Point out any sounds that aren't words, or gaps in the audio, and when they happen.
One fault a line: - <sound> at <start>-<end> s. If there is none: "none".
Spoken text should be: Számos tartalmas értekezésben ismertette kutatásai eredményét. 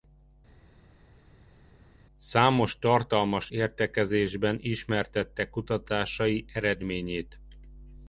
none